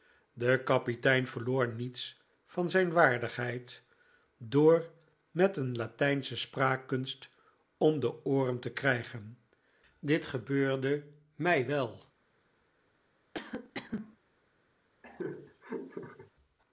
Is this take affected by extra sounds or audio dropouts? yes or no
yes